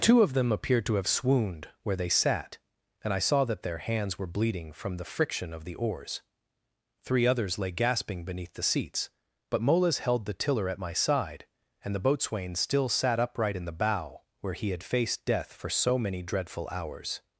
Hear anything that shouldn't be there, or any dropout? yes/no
no